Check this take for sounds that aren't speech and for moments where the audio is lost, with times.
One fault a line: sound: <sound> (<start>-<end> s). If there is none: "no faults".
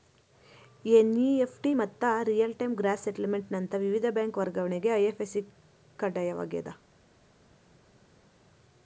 no faults